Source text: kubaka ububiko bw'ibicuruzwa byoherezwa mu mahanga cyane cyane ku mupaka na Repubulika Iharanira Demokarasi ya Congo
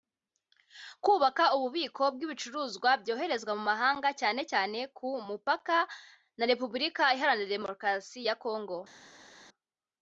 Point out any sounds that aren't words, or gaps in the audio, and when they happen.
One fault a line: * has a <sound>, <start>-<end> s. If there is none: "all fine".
all fine